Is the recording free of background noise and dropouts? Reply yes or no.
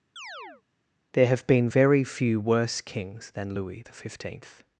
no